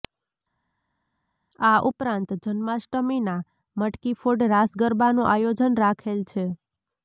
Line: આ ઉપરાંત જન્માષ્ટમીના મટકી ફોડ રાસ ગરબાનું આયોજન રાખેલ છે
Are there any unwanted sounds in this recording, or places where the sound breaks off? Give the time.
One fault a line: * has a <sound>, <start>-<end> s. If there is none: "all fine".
all fine